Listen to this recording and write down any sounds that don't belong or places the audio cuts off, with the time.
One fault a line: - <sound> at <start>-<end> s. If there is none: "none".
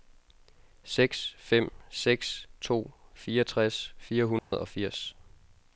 - dropout at 4.4-4.5 s